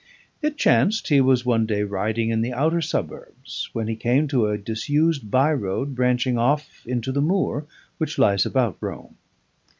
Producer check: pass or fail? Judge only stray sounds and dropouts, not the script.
pass